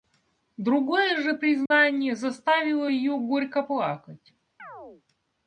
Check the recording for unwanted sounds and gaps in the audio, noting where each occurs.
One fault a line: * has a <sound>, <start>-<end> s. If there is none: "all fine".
* has a dropout, 1.7-1.7 s
* has a chirp, 4.6-5.0 s